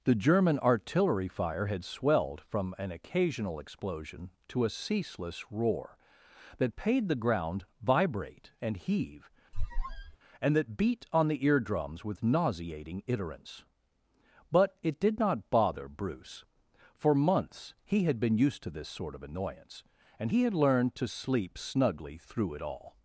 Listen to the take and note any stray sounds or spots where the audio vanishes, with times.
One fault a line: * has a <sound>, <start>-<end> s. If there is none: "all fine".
* has a squeak, 9.5-10.2 s